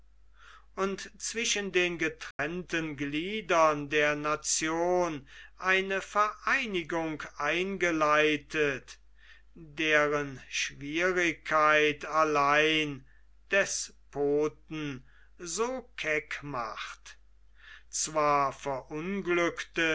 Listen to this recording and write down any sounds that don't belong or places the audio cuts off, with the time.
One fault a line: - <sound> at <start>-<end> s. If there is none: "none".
- dropout at 2.3-2.4 s